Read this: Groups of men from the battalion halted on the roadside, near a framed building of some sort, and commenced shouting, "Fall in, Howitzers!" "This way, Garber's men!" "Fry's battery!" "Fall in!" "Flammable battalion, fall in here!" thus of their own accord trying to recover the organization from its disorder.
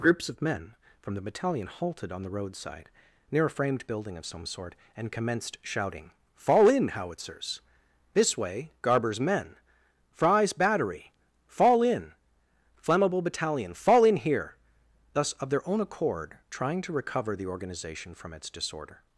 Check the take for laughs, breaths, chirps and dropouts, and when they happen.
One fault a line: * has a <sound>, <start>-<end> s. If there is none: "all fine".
all fine